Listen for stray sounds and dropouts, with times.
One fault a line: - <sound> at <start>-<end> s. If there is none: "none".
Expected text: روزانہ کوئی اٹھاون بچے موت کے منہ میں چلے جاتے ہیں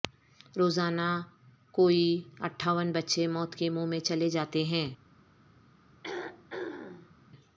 - throat clearing at 6.0-7.1 s